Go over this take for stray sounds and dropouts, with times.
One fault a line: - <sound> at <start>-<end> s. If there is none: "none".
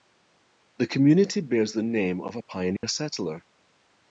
- dropout at 2.8-2.8 s